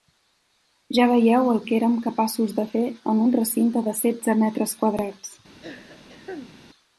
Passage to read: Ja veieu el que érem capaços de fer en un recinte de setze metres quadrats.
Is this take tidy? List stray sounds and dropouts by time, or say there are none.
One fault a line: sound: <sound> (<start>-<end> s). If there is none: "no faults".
sound: throat clearing (5.6-6.6 s)